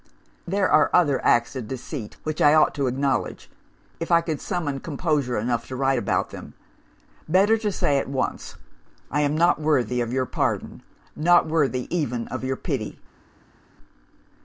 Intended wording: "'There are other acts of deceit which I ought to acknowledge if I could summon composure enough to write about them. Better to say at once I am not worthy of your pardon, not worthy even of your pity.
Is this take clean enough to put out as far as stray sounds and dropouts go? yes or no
yes